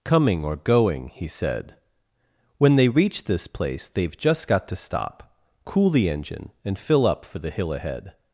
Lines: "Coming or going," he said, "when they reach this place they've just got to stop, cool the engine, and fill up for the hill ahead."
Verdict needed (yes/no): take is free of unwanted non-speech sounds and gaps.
yes